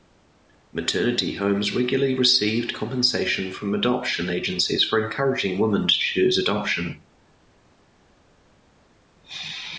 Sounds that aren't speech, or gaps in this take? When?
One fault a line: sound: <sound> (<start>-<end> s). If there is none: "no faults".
no faults